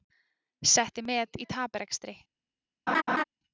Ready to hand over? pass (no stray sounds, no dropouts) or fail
fail